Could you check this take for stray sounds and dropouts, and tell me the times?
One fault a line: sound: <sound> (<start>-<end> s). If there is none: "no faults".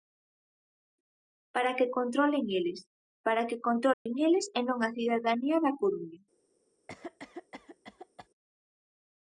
sound: dropout (3.9-4.1 s)
sound: cough (6.9-8.3 s)